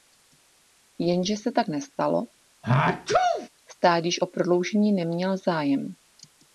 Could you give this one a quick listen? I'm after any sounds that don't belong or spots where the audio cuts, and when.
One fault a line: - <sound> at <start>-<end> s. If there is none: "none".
- sneeze at 2.6-3.5 s